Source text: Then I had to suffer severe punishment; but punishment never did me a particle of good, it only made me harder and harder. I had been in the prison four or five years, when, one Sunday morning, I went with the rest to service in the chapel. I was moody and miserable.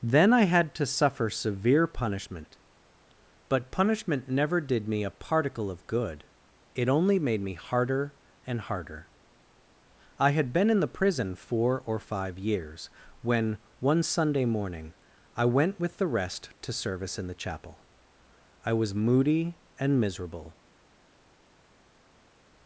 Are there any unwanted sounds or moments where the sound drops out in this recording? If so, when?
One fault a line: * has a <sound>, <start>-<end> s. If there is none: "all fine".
all fine